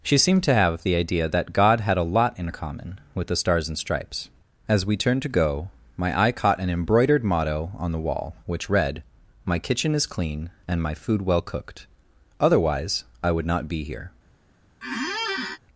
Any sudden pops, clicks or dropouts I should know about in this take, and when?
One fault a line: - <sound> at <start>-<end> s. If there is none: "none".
- squeak at 14.8-15.6 s